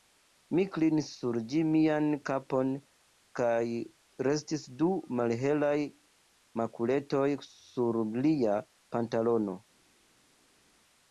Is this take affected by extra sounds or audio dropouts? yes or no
no